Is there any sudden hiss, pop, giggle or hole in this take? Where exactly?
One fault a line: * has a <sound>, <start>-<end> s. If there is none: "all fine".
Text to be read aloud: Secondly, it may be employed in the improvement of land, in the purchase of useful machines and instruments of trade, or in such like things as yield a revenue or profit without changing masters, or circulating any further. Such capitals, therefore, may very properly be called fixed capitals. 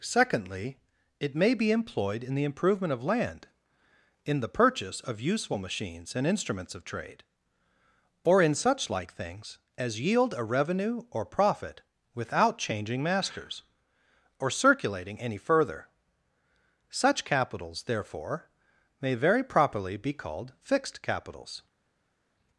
all fine